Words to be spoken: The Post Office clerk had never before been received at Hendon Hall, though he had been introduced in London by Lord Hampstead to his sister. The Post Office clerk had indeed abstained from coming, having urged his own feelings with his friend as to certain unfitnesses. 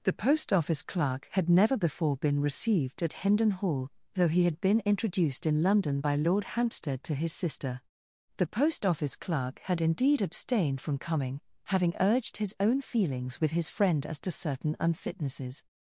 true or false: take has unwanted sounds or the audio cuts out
false